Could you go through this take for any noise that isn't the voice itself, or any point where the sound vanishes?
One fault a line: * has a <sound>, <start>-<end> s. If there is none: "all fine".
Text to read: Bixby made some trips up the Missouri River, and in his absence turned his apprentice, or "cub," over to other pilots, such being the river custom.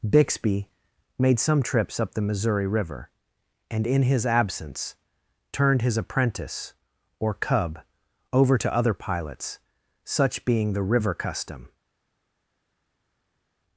all fine